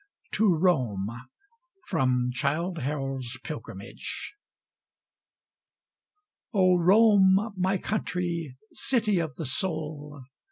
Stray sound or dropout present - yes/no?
no